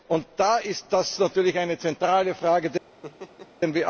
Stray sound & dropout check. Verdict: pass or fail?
fail